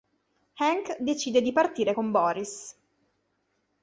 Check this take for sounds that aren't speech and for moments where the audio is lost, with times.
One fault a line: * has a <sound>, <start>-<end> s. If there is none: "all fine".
all fine